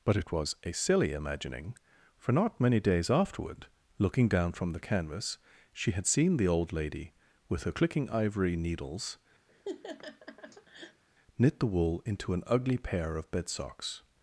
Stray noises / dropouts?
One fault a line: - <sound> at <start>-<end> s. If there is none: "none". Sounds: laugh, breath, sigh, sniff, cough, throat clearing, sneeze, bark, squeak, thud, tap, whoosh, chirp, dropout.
- laugh at 9.5-11.0 s